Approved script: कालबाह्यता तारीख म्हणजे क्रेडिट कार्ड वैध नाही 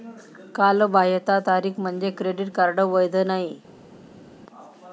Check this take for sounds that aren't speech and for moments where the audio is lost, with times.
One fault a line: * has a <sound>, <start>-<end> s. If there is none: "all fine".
all fine